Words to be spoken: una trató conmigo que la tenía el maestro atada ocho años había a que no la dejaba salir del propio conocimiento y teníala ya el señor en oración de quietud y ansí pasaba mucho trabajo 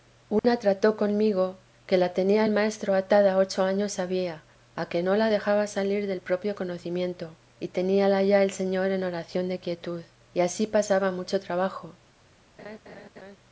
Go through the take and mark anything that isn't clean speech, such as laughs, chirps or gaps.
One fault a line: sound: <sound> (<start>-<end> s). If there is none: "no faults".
sound: dropout (0.4-0.4 s)
sound: laugh (12.6-13.4 s)